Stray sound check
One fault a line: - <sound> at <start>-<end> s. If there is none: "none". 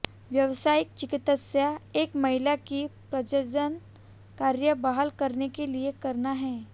none